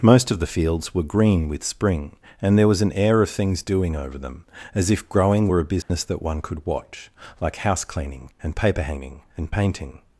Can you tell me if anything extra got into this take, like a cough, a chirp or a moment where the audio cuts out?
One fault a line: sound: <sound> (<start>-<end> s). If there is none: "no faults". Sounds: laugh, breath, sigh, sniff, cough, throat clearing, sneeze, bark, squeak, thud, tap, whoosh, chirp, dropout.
sound: dropout (5.8-5.9 s)